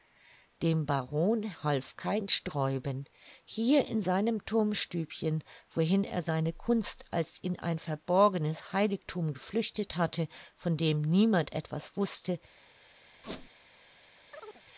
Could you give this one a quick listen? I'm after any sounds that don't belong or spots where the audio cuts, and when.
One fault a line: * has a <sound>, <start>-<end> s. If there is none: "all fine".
* has a squeak, 13.2-13.5 s
* has a chirp, 14.3-14.6 s